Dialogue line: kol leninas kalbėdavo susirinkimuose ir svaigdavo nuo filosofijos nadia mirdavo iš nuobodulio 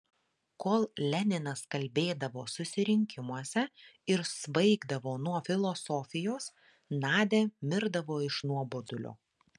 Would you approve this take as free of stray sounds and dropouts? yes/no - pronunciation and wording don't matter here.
yes